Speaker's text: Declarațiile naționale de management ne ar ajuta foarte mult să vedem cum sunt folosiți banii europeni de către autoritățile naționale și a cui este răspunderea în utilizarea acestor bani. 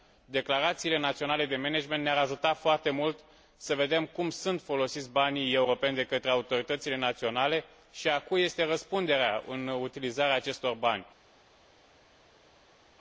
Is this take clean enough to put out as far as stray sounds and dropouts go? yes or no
yes